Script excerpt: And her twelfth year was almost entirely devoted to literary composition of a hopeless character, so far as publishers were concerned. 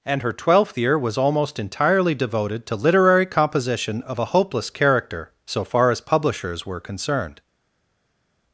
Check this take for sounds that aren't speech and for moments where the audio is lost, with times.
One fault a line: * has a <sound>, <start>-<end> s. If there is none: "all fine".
all fine